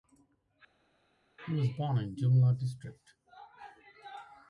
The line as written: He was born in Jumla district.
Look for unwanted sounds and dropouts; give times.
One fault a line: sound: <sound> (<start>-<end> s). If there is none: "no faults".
no faults